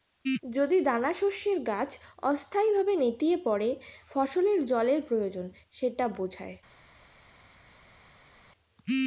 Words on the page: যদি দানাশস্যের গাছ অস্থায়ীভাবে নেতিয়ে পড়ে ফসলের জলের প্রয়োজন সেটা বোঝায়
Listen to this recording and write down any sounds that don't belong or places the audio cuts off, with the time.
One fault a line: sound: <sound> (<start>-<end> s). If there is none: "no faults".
no faults